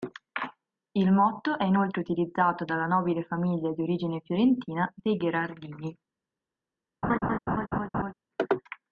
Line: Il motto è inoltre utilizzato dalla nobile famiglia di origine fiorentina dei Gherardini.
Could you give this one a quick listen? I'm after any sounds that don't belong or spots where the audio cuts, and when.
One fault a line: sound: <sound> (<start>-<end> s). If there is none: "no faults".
sound: laugh (7.0-8.1 s)